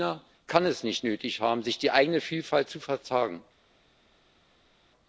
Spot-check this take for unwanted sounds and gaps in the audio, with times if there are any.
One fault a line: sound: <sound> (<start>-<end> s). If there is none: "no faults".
no faults